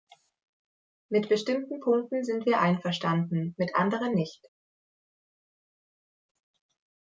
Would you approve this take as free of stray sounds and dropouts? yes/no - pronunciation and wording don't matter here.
yes